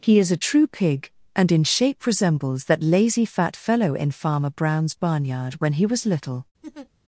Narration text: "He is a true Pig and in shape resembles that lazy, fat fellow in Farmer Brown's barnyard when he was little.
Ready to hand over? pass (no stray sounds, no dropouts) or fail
fail